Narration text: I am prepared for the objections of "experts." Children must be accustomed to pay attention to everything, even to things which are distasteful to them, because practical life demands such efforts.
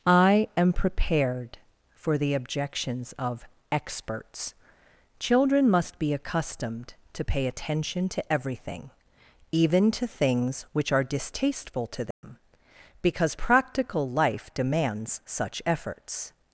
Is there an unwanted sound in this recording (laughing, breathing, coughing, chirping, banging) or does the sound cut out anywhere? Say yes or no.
yes